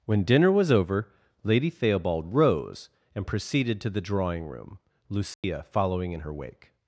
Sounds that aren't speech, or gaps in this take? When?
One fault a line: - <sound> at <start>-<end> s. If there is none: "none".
- dropout at 5.3-5.4 s